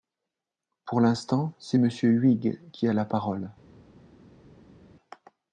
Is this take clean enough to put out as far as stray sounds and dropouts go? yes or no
yes